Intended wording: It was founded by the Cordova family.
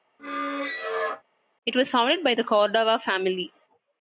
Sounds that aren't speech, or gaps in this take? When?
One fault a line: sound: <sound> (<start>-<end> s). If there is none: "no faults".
sound: squeak (0.2-1.2 s)